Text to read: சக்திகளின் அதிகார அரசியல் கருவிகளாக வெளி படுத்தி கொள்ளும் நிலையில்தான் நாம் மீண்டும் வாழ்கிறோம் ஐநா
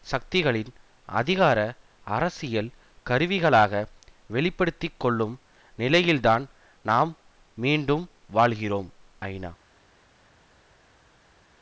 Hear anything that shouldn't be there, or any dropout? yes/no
no